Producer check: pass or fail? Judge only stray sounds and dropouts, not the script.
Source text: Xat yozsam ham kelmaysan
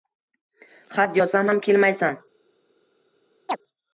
fail